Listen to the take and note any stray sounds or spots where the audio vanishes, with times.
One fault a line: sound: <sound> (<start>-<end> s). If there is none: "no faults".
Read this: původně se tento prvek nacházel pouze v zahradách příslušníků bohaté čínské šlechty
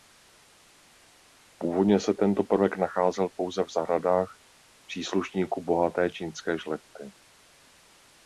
no faults